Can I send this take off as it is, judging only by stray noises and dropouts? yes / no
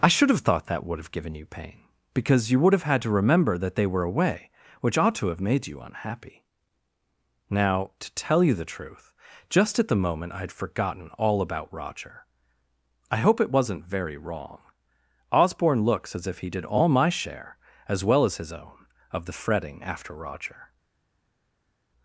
yes